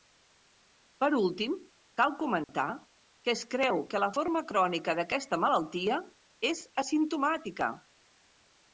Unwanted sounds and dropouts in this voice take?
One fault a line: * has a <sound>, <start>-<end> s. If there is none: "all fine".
* has a dropout, 2.4-2.5 s